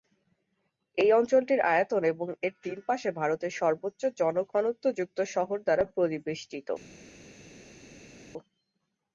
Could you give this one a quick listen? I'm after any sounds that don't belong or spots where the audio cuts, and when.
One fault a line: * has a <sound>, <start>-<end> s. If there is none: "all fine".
all fine